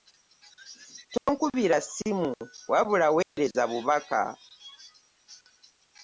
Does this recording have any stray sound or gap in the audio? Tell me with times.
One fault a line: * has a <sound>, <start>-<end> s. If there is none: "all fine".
* has a dropout, 1.2-1.3 s
* has a dropout, 3.2-3.4 s